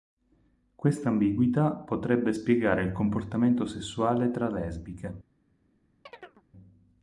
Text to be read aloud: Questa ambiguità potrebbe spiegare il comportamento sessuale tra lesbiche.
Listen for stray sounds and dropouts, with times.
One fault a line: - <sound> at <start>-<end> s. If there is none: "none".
- chirp at 6.1-6.4 s